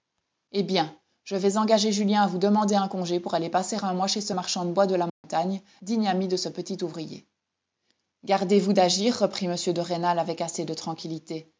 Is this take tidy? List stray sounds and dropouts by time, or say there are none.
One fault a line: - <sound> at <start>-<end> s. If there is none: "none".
- dropout at 5.1-5.2 s